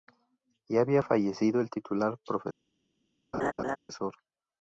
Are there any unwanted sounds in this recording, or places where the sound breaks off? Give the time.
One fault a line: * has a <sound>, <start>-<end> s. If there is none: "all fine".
* has a laugh, 3.3-3.8 s